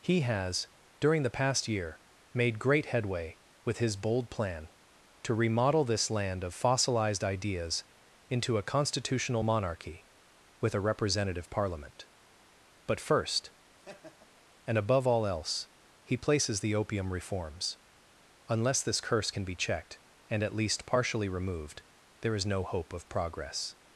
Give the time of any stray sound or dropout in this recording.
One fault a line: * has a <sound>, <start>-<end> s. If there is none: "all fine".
* has a laugh, 13.7-14.4 s